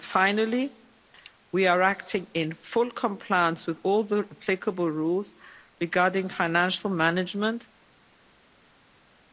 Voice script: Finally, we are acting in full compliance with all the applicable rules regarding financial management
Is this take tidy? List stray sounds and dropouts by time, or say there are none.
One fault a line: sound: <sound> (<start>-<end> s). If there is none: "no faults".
no faults